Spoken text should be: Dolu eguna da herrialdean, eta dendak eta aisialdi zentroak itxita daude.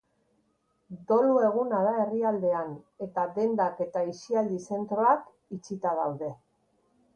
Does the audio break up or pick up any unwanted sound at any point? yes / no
no